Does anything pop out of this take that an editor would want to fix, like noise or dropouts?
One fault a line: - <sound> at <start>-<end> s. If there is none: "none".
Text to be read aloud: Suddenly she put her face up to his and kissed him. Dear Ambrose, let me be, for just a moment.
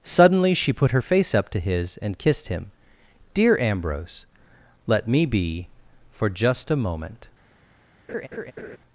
- laugh at 8.1-8.8 s